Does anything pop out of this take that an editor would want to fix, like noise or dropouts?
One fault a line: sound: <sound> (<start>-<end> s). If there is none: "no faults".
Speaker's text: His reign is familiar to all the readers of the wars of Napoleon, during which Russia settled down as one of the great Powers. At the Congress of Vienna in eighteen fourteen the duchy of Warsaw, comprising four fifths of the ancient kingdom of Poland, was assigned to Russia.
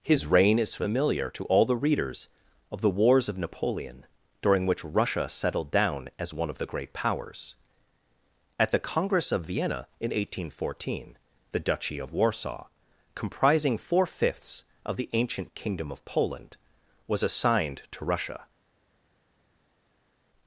no faults